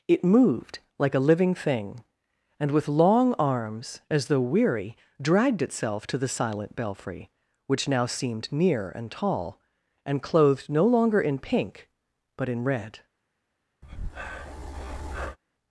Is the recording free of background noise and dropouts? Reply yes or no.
no